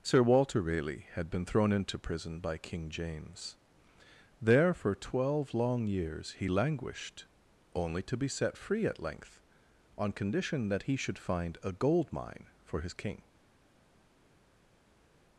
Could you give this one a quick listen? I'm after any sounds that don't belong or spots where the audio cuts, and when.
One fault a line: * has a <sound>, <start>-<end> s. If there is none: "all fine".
all fine